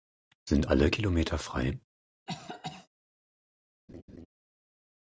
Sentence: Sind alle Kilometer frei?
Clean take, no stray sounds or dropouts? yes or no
no